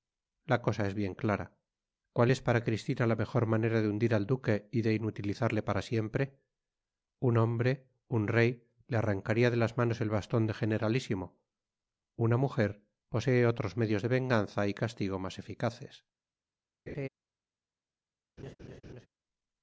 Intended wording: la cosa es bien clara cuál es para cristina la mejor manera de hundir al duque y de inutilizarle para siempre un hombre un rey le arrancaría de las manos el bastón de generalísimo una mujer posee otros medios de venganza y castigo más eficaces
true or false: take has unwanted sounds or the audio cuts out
true